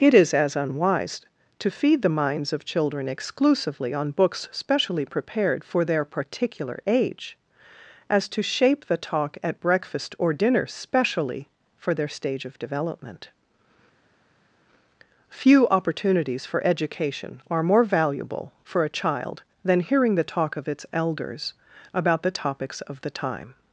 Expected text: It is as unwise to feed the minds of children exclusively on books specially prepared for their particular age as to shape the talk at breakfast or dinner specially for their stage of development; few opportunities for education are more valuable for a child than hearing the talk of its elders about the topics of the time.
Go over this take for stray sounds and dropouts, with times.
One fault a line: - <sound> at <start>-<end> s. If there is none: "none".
none